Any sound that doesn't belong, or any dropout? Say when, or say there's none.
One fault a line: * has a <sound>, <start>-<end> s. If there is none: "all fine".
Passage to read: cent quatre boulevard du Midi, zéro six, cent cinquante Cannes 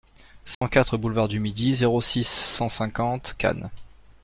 * has a dropout, 0.5-0.6 s